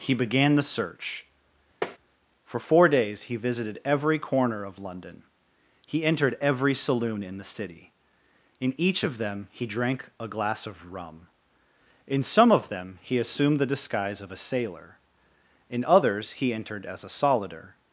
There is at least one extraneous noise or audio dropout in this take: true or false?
true